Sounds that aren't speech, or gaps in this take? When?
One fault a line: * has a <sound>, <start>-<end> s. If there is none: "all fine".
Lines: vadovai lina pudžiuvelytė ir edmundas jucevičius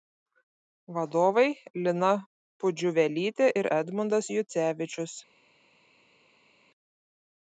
all fine